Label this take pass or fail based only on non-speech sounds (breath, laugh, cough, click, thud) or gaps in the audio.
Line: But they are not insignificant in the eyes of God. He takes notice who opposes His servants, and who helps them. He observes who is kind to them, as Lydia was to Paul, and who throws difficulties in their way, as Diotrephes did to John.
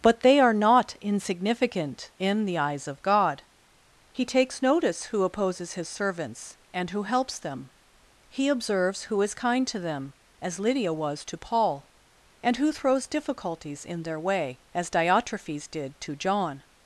pass